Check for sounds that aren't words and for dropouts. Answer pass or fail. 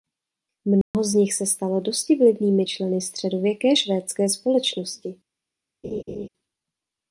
fail